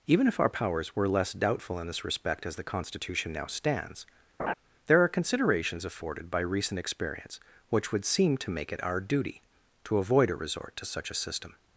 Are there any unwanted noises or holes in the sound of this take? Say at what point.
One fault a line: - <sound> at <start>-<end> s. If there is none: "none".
- laugh at 4.4-4.5 s